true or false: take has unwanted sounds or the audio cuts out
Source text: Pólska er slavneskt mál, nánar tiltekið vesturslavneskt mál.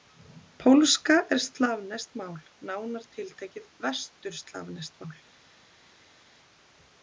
false